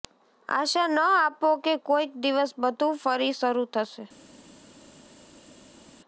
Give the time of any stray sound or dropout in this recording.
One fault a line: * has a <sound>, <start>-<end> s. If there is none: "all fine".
all fine